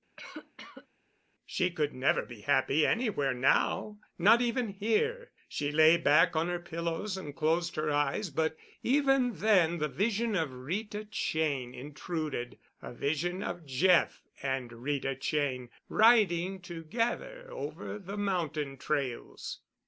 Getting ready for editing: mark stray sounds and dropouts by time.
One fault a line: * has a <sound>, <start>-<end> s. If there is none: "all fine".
* has a cough, 0.2-0.9 s